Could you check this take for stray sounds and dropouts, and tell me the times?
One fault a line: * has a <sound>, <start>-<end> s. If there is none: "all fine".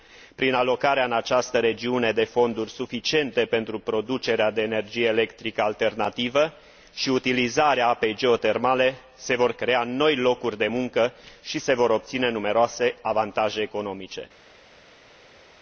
all fine